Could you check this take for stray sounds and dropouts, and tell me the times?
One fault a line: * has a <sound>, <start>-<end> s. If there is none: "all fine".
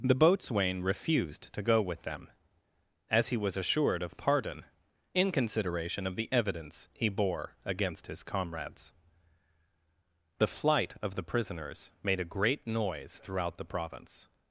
all fine